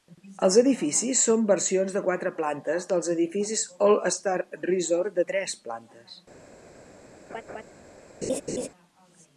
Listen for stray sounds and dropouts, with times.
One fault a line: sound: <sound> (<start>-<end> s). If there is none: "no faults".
sound: laugh (7.3-7.6 s)
sound: laugh (8.2-8.7 s)